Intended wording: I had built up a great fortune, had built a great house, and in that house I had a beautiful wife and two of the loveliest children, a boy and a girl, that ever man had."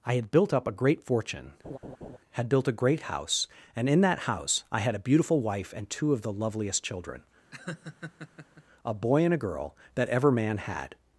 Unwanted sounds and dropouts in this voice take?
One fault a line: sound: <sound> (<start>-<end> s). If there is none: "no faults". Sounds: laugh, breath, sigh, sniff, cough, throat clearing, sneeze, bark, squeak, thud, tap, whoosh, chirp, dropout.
sound: laugh (1.6-2.2 s)
sound: laugh (7.5-8.6 s)